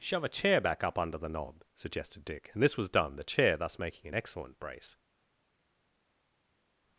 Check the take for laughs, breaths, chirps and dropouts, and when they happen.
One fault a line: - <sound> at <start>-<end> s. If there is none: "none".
none